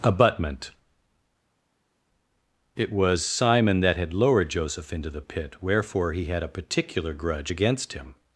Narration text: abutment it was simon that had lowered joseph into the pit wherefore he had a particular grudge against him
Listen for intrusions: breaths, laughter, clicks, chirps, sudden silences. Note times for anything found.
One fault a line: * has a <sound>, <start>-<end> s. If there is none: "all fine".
all fine